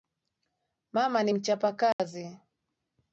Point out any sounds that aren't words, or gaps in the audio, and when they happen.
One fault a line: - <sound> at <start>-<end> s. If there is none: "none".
- dropout at 1.9-2.0 s